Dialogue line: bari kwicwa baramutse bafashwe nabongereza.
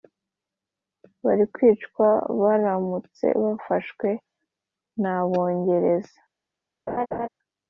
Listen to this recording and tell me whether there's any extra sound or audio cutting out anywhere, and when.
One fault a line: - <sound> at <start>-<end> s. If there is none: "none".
- laugh at 6.9-7.3 s